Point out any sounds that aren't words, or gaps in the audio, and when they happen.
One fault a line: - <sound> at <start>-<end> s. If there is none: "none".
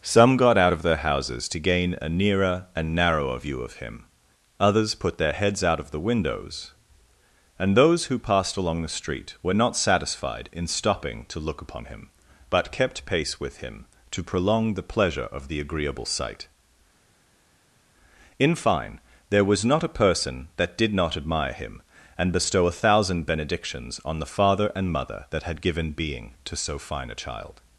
none